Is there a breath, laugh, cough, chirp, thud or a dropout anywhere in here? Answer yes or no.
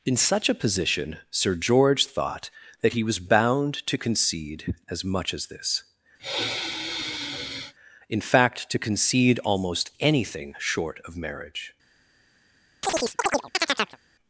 yes